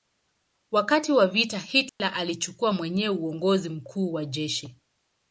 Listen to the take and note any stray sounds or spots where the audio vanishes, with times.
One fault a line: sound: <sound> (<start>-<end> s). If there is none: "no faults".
sound: dropout (1.9-2.0 s)